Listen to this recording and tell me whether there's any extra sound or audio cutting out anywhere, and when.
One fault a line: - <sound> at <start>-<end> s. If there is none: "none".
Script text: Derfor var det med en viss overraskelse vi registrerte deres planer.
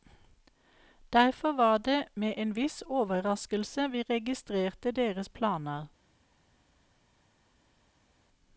none